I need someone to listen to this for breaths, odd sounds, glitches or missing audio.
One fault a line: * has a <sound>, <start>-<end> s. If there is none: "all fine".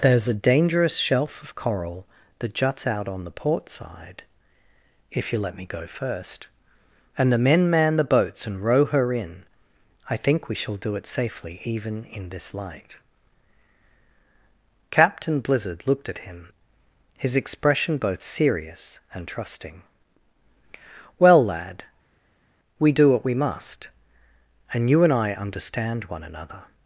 all fine